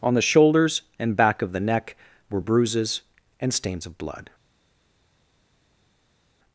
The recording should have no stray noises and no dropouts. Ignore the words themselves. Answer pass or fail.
pass